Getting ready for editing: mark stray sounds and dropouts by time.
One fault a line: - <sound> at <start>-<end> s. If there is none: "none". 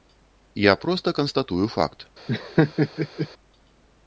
- laugh at 2.3-3.3 s